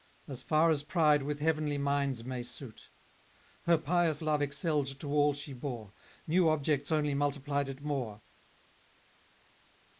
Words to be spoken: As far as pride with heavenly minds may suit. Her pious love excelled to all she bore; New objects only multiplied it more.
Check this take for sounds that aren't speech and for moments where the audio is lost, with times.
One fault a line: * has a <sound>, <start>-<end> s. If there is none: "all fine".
all fine